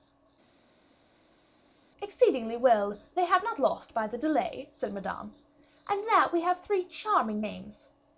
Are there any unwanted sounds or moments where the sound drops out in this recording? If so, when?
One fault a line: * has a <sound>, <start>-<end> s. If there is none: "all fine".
all fine